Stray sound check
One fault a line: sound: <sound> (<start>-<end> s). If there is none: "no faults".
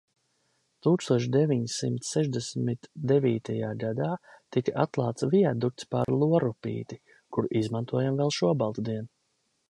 sound: dropout (6.0-6.1 s)